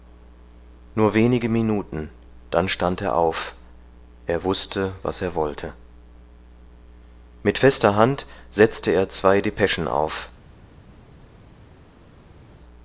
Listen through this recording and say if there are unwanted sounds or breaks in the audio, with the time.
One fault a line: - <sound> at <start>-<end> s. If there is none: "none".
none